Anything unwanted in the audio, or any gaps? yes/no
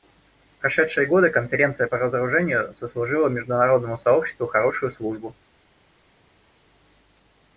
no